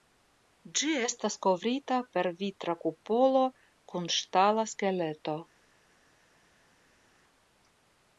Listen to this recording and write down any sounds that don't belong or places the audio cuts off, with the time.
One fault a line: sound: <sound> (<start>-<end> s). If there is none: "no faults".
no faults